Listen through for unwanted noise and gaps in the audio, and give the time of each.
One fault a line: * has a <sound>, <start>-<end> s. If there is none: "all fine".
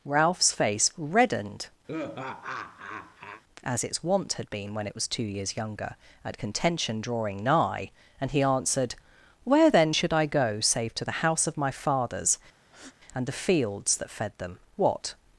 * has a laugh, 1.9-3.4 s
* has a breath, 12.6-13.0 s